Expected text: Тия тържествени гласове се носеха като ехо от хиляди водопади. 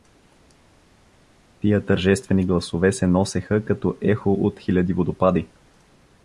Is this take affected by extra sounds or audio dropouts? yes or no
no